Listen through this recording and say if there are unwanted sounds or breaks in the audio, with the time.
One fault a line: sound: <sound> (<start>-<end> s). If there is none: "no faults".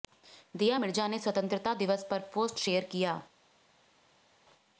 no faults